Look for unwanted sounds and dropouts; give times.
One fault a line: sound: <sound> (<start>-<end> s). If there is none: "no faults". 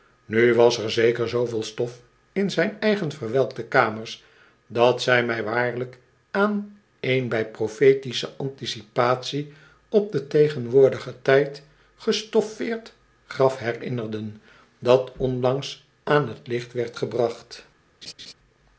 sound: laugh (18.0-18.3 s)